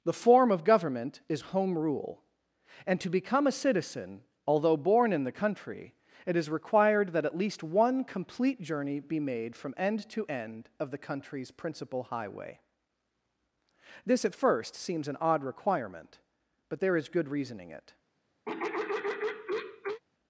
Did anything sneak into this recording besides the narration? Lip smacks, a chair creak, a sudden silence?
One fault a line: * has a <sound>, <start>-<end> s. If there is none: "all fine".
* has a throat clearing, 18.5-20.0 s